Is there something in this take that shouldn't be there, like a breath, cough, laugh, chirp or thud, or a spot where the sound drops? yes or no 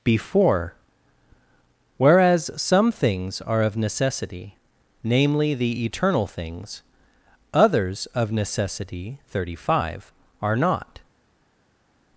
no